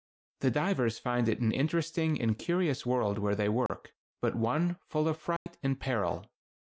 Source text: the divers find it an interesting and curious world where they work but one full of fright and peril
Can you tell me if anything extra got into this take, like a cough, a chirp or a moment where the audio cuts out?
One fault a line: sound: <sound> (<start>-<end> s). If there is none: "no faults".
sound: dropout (3.7-3.7 s)
sound: dropout (5.4-5.5 s)